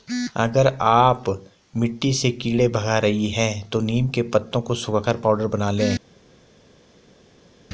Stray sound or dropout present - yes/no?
no